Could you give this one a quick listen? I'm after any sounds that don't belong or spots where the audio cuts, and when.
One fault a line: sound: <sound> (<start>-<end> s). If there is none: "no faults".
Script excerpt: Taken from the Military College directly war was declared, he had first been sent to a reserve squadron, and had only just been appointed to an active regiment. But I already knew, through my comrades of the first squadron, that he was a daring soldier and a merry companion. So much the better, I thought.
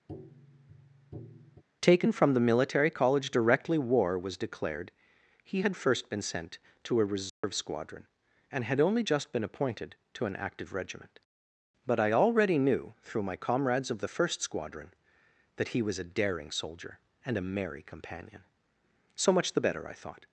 sound: tap (0.1-1.6 s)
sound: dropout (7.3-7.4 s)